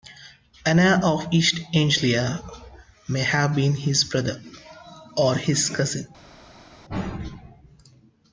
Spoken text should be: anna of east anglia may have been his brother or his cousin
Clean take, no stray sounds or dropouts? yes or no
yes